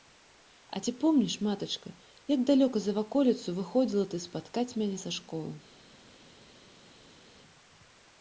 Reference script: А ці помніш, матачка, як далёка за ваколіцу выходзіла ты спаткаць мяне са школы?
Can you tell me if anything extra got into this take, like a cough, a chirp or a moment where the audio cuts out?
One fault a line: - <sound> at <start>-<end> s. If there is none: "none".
none